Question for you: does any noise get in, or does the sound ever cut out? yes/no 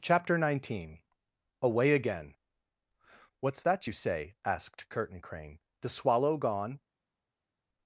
no